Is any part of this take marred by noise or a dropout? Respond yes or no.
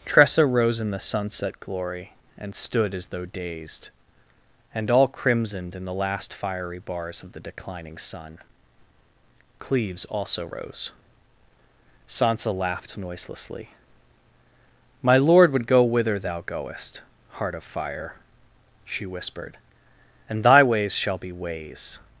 no